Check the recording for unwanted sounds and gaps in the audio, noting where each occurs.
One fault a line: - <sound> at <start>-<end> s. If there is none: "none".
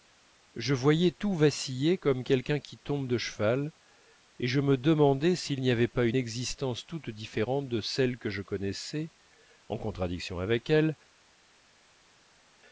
none